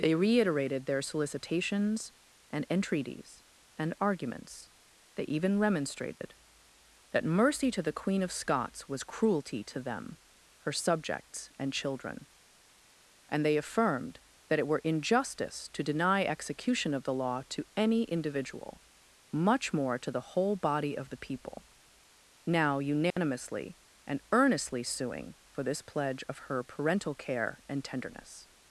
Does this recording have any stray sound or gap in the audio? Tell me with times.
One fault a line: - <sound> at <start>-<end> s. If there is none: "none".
- dropout at 6.2-6.2 s
- dropout at 23.1-23.2 s